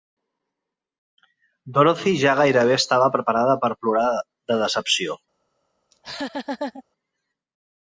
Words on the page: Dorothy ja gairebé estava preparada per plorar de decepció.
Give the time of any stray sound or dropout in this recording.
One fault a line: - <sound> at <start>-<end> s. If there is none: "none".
- laugh at 5.9-6.8 s